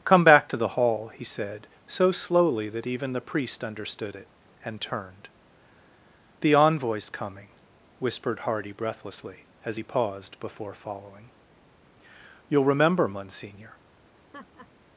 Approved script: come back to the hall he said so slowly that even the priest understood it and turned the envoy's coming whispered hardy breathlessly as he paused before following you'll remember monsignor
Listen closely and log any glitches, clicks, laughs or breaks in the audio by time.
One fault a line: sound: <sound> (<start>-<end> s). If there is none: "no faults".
sound: laugh (14.1-14.7 s)